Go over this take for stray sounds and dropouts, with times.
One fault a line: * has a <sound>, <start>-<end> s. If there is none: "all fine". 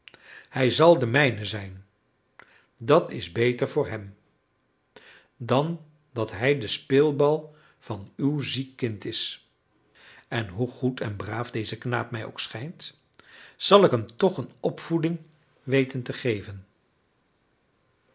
all fine